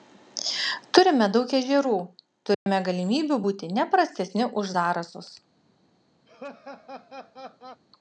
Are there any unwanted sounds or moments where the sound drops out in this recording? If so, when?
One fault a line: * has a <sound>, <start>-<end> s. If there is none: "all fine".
* has a dropout, 2.5-2.7 s
* has a laugh, 6.3-7.8 s